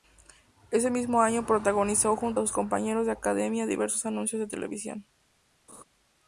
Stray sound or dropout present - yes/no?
yes